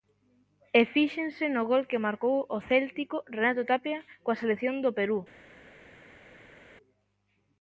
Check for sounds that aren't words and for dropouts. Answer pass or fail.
pass